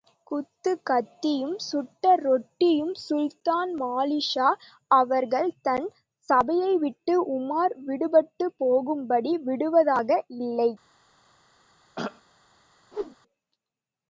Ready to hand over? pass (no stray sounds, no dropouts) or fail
fail